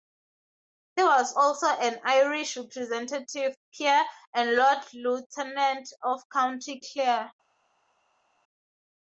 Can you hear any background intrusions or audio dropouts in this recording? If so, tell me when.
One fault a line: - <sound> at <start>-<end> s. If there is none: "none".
none